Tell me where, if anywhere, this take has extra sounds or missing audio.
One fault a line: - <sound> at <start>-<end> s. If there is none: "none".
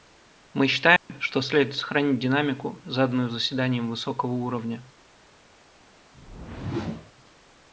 - dropout at 1.0-1.1 s
- whoosh at 6.1-7.1 s